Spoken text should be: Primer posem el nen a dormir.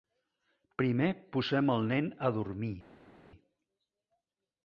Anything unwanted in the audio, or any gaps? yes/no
no